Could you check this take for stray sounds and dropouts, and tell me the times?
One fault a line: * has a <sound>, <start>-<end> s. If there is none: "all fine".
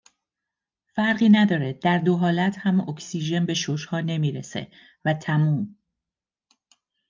all fine